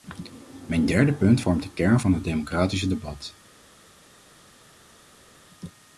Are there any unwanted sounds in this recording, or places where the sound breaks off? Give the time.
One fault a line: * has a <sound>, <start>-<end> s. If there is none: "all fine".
all fine